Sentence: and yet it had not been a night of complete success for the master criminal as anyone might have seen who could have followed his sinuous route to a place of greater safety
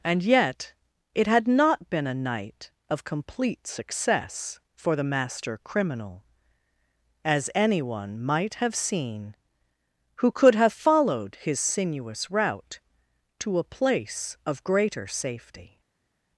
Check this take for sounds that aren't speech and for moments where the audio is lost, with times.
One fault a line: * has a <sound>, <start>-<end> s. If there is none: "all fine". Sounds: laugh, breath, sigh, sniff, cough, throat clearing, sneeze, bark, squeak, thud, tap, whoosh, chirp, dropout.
all fine